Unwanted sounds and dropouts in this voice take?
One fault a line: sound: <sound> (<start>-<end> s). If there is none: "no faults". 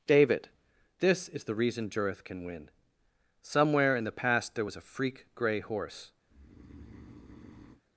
sound: breath (6.3-7.8 s)